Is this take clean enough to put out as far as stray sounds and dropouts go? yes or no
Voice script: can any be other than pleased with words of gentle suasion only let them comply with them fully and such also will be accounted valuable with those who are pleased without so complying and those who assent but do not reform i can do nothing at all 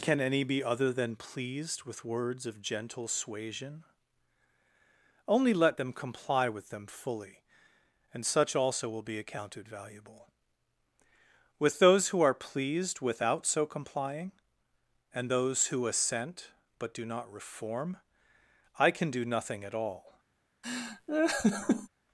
no